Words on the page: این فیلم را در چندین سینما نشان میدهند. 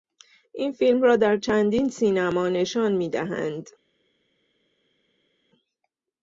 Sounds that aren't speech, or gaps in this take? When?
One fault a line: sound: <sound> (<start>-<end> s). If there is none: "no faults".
no faults